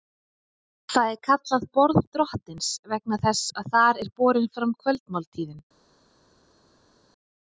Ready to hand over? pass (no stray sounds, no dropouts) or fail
pass